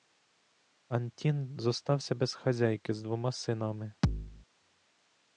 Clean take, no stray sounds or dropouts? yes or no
no